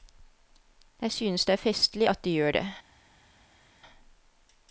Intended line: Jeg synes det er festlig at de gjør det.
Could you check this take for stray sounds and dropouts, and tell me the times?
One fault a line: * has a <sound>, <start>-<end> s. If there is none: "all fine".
all fine